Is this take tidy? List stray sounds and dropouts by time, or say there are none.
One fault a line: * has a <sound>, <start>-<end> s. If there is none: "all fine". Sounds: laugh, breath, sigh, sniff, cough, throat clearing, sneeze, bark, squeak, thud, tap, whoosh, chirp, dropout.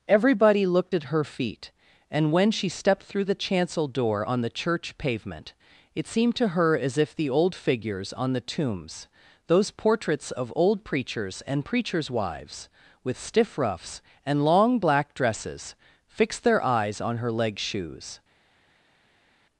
all fine